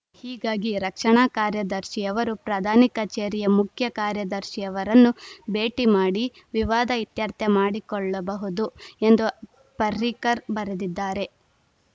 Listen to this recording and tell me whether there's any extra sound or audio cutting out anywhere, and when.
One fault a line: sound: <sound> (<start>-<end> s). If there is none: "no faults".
no faults